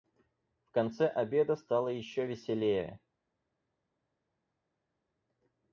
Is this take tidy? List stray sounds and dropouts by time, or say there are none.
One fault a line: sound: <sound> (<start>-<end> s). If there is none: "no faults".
no faults